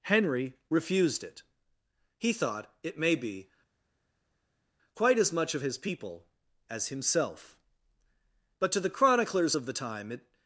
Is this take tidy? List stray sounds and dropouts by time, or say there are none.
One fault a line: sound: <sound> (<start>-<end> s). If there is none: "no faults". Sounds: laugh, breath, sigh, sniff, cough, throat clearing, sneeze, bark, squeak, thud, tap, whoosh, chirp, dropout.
no faults